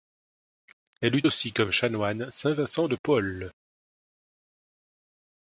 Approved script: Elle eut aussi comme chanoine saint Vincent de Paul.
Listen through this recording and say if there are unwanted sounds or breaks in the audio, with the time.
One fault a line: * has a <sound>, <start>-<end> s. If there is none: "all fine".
all fine